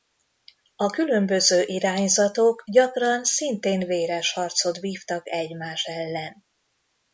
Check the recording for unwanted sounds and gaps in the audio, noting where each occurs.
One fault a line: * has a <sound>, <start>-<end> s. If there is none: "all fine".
all fine